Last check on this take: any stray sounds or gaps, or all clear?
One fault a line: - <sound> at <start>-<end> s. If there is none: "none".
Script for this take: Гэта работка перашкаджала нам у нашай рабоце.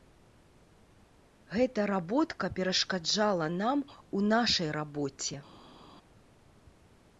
none